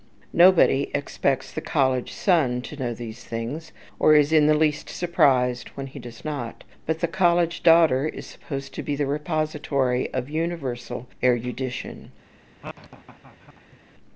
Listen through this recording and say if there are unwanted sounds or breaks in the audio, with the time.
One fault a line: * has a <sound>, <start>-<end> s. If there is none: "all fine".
* has a laugh, 12.6-13.8 s